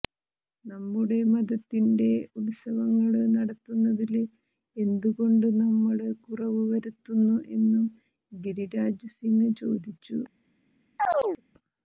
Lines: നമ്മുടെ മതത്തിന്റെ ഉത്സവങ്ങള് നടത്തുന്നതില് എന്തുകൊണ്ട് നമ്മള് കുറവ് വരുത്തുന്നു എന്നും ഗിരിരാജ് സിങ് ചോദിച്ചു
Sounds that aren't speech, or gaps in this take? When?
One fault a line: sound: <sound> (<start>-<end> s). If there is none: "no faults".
sound: chirp (11.0-11.4 s)